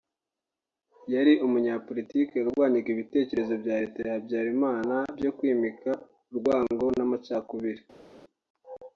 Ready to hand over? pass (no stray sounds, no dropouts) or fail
pass